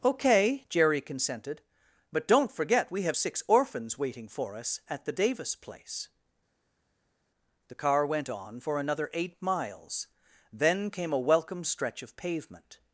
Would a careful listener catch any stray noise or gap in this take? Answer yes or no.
no